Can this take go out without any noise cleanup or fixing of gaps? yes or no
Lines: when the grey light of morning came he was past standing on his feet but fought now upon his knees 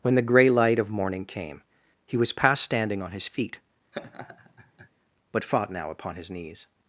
no